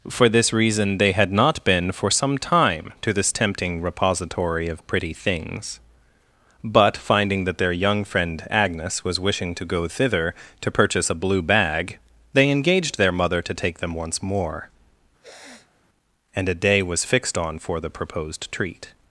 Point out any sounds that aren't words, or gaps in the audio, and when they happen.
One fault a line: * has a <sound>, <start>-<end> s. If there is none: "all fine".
* has a sniff, 15.2-15.8 s